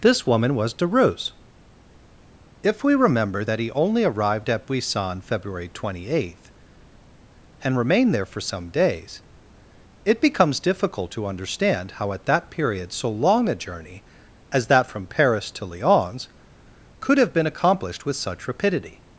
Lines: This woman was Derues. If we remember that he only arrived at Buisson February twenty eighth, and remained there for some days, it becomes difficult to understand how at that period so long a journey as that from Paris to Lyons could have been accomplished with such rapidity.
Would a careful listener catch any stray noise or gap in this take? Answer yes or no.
no